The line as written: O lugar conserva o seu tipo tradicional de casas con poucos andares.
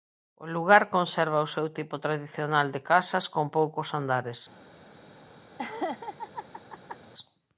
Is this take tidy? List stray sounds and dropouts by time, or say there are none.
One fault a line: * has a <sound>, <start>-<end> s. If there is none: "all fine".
* has a laugh, 5.6-7.0 s